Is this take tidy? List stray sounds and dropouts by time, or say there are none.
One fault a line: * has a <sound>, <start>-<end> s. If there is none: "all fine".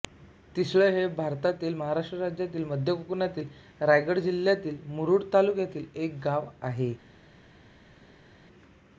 all fine